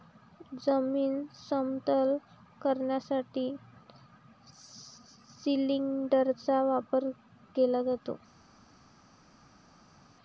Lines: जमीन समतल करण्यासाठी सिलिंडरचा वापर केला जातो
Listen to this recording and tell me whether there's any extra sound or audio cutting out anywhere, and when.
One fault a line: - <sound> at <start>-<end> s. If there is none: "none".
none